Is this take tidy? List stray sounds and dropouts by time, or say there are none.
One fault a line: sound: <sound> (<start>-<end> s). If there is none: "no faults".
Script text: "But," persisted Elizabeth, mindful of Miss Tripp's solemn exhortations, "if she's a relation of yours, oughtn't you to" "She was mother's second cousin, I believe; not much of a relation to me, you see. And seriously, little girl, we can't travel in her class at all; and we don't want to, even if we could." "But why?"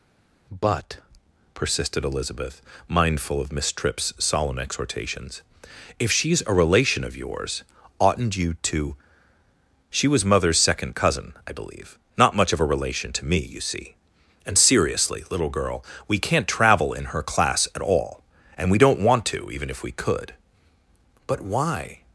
no faults